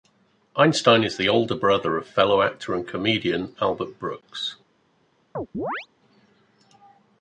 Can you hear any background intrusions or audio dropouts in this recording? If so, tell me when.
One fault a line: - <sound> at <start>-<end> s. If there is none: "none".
- chirp at 5.3-5.9 s